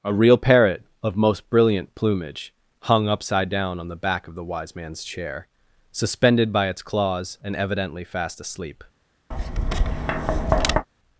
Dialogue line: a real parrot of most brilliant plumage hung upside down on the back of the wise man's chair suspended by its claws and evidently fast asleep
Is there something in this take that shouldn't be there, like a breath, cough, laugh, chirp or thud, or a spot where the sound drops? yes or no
yes